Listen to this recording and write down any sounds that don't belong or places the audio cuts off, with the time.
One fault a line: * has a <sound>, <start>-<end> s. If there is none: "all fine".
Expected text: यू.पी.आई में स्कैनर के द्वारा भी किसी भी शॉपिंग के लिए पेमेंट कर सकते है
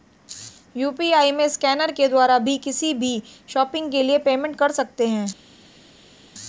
all fine